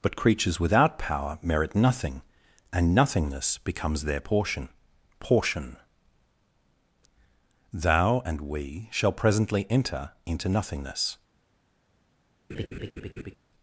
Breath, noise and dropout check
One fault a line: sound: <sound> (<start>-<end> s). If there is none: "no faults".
sound: laugh (12.5-13.4 s)